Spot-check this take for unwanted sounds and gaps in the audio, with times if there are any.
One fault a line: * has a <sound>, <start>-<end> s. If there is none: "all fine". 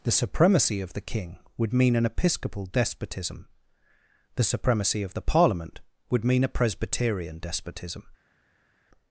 all fine